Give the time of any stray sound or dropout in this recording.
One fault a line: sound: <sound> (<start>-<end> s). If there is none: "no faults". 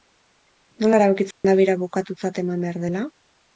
sound: dropout (1.3-1.4 s)